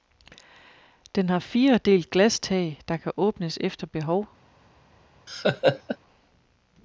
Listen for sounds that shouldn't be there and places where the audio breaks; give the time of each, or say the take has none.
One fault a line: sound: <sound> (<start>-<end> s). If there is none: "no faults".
sound: laugh (5.3-6.0 s)